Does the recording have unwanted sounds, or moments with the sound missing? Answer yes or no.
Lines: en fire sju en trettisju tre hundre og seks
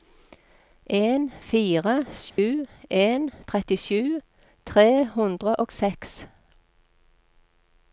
yes